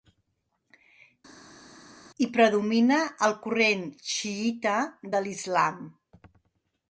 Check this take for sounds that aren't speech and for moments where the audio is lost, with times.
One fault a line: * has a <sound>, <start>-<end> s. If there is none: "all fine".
all fine